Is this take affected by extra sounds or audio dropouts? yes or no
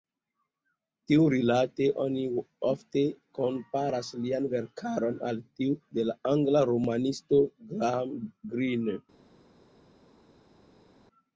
no